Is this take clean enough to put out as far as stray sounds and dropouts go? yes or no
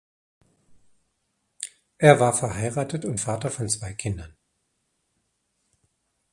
yes